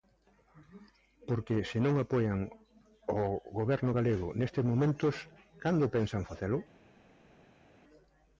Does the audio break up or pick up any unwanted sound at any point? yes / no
no